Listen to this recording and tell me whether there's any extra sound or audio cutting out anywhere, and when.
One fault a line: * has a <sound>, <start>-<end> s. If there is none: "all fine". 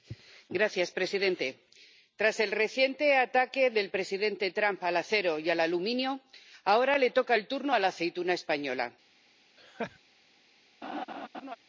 * has a laugh, 9.6-10.0 s
* has a laugh, 10.8-11.6 s